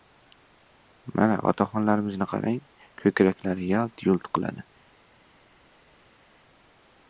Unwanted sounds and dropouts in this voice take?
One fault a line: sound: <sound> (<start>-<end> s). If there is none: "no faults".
no faults